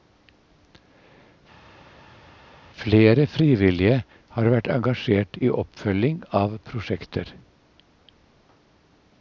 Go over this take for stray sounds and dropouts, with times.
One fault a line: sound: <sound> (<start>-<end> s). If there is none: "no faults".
no faults